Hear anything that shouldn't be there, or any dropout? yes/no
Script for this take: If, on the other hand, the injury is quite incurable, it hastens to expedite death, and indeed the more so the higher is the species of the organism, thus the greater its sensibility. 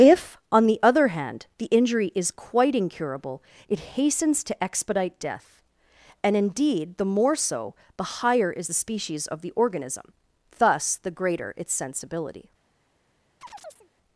yes